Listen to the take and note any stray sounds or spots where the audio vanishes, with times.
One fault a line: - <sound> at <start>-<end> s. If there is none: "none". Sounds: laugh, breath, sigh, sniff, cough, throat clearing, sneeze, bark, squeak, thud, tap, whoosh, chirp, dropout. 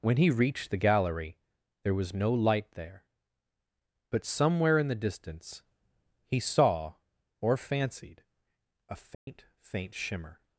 - dropout at 9.1-9.3 s